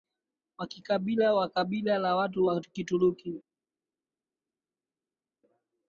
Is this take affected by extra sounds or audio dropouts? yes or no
no